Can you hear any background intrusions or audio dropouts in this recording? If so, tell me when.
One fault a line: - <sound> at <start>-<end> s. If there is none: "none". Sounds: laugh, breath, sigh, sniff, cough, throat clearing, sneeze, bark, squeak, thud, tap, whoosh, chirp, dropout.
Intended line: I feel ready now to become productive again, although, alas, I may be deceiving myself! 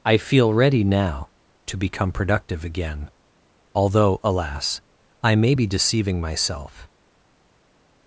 none